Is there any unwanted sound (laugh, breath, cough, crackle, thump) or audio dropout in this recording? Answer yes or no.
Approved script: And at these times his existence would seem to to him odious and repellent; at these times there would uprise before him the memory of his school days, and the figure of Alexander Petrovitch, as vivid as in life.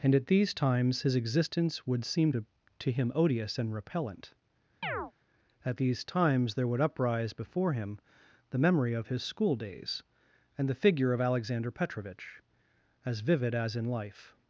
yes